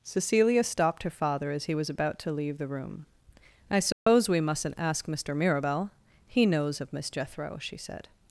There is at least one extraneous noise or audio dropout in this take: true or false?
true